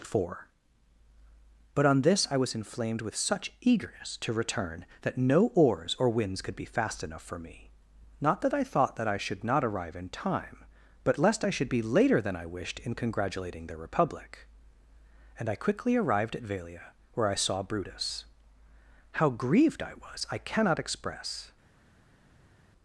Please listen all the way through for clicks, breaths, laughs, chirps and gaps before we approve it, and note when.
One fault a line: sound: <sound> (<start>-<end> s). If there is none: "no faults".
no faults